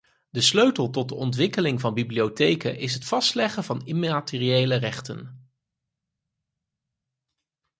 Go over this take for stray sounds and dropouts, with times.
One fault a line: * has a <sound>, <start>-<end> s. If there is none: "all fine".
all fine